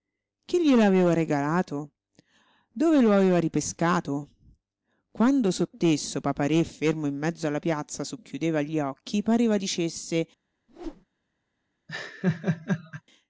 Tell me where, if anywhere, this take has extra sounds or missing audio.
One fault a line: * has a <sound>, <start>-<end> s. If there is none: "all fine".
* has a whoosh, 10.7-11.1 s
* has a laugh, 11.9-13.0 s